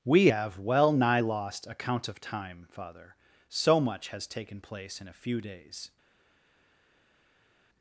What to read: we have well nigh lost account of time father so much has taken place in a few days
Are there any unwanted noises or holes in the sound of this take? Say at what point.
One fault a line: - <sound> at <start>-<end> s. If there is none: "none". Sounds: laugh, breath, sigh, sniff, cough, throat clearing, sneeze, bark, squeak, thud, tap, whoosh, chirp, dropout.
none